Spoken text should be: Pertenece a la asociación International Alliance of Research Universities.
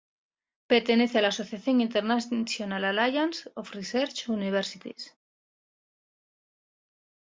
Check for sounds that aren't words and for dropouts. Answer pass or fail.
pass